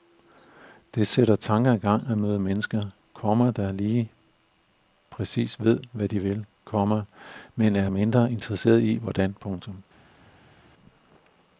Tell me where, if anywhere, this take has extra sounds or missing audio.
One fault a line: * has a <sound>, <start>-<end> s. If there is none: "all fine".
all fine